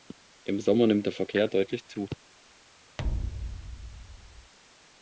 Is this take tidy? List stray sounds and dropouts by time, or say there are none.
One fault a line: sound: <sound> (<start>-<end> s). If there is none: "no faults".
sound: thud (3.0-4.5 s)